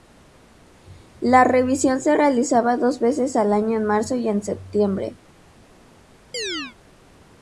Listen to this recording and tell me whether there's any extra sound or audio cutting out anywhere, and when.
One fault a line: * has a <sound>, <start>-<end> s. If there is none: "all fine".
* has a chirp, 6.3-6.8 s